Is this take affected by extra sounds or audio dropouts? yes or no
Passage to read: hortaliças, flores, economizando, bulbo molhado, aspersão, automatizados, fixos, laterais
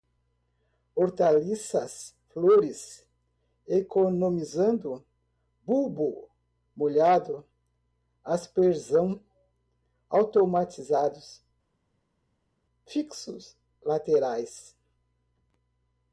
no